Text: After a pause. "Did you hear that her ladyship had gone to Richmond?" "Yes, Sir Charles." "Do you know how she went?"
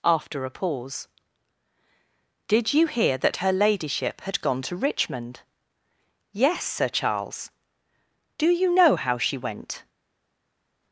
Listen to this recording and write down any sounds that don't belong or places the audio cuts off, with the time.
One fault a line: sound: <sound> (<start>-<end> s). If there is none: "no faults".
no faults